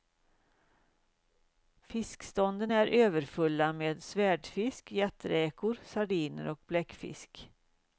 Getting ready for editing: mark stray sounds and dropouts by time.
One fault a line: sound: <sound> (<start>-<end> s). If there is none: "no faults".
no faults